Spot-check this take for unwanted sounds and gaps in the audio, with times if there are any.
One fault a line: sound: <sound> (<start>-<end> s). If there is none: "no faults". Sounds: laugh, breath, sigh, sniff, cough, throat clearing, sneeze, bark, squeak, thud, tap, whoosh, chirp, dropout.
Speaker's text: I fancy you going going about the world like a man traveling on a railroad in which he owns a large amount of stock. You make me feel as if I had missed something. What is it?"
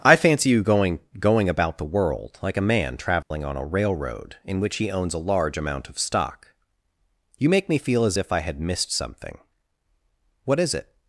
sound: dropout (3.2-3.3 s)